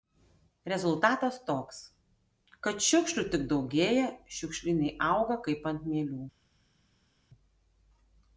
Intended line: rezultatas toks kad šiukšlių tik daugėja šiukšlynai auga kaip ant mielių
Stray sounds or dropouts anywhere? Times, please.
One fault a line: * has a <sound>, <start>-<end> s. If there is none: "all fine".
all fine